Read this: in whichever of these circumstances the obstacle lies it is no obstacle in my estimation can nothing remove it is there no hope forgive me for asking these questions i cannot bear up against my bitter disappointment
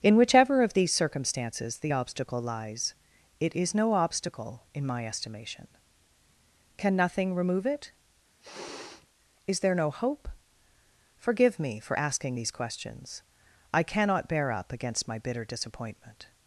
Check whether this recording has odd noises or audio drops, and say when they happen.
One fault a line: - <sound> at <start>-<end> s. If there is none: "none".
- sniff at 8.4-9.1 s